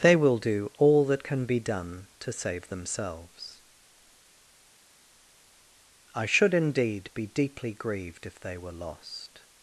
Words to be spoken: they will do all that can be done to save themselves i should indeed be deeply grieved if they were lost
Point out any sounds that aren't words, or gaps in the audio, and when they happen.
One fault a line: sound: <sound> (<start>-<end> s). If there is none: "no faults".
no faults